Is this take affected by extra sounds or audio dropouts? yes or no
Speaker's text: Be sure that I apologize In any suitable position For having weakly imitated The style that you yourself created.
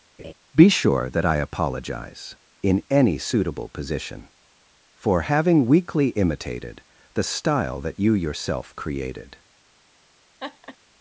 yes